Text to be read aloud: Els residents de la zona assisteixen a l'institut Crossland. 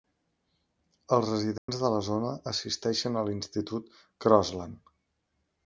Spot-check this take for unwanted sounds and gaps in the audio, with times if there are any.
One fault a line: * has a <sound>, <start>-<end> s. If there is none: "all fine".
* has a dropout, 1.6-1.7 s